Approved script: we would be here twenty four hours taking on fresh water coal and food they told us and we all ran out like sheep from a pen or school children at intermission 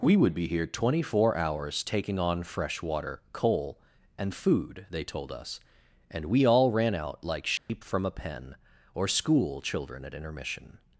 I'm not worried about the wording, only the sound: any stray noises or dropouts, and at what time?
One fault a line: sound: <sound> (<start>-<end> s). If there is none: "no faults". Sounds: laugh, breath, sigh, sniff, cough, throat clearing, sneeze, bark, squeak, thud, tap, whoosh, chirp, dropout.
sound: dropout (7.6-7.7 s)